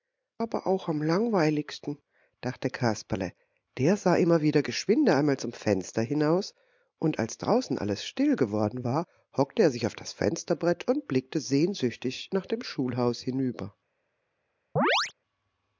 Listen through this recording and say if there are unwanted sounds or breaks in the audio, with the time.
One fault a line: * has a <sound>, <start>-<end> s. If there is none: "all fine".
* has a chirp, 14.8-15.1 s